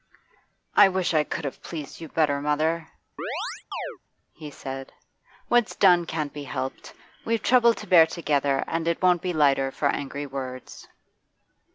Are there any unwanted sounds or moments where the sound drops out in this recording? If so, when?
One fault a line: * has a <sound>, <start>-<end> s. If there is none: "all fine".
* has a chirp, 3.2-4.0 s